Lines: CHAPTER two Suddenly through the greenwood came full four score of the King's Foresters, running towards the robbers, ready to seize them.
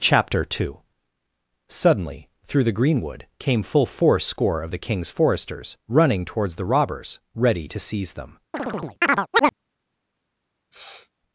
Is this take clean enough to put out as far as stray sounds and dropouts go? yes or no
no